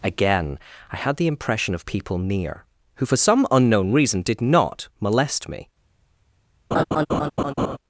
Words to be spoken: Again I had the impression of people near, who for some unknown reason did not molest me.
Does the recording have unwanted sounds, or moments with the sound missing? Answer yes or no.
yes